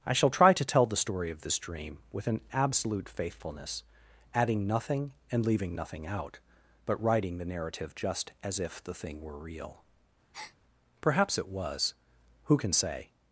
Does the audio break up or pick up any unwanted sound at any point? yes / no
yes